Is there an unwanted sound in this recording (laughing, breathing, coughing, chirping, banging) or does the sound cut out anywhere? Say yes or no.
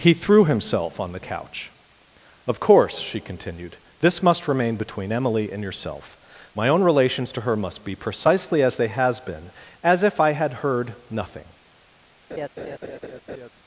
yes